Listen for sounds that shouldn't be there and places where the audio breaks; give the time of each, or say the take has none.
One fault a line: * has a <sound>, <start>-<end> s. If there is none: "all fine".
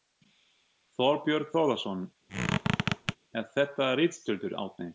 * has a squeak, 2.3-3.2 s